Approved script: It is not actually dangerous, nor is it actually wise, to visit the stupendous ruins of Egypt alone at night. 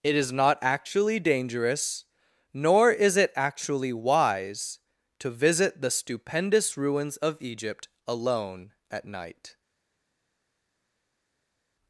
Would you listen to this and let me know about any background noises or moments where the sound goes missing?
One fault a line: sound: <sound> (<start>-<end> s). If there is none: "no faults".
no faults